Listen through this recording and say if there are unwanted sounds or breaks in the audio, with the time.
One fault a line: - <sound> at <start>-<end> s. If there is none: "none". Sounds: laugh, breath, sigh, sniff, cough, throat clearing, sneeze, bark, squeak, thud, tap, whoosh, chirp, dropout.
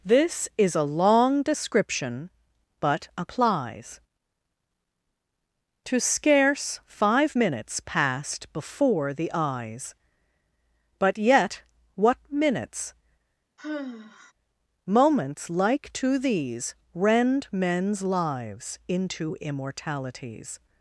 - sigh at 13.6-14.3 s